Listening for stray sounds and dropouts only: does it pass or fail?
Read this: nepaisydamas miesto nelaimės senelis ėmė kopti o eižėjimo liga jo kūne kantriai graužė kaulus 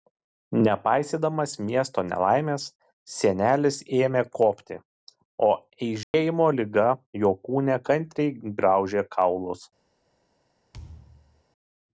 fail